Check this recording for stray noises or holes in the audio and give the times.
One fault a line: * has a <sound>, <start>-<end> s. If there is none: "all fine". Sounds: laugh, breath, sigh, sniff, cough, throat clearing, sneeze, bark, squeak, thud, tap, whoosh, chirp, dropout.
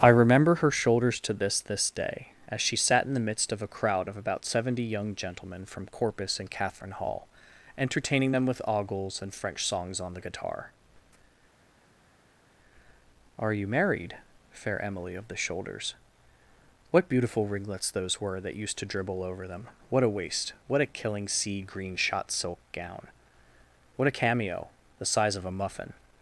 all fine